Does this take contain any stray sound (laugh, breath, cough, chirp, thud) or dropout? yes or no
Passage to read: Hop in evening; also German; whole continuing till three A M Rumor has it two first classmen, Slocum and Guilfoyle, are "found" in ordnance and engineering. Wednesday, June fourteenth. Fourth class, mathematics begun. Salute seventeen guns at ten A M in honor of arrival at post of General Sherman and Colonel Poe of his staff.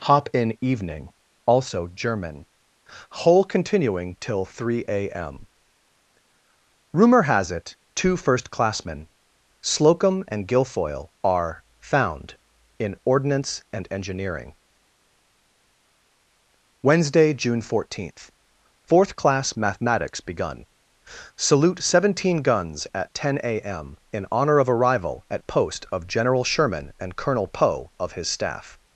no